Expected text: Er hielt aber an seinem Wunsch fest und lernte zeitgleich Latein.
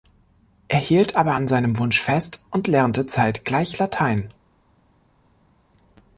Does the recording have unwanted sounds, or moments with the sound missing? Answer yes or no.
no